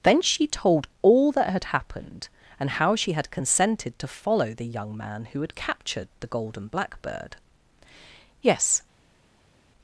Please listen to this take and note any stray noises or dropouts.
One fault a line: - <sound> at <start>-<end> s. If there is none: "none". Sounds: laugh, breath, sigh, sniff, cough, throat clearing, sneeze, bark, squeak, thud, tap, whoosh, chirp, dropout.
none